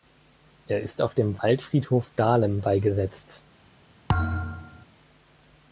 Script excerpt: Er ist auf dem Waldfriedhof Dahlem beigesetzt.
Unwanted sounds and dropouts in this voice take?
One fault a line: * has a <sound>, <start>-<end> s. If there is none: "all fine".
* has a thud, 4.1-4.9 s